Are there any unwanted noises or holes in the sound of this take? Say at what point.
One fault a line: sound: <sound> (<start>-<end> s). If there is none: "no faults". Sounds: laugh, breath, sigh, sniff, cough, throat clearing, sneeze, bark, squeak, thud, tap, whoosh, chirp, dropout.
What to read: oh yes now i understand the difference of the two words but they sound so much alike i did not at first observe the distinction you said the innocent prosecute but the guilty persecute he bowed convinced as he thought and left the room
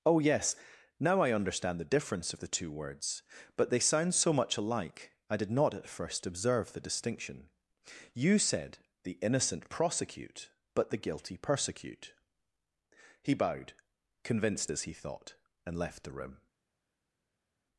no faults